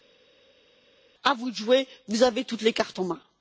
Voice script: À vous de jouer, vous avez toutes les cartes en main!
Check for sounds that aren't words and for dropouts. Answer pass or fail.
pass